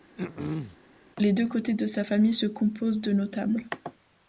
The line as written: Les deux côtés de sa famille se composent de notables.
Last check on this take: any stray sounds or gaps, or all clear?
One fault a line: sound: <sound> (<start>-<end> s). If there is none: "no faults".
sound: throat clearing (0.2-0.8 s)